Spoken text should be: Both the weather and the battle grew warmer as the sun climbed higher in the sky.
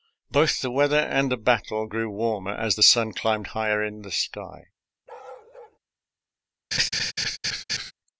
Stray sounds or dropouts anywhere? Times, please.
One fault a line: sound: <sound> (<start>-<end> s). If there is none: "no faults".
sound: bark (5.1-5.8 s)
sound: laugh (6.7-7.9 s)